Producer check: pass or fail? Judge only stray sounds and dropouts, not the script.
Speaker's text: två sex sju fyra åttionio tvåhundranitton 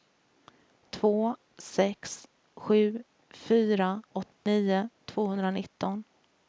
fail